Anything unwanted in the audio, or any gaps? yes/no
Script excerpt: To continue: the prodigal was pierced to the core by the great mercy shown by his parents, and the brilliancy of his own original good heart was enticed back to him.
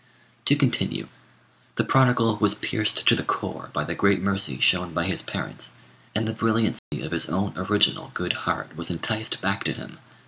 yes